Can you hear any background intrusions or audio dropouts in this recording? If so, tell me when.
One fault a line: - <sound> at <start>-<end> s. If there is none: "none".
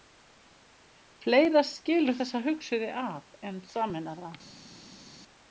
none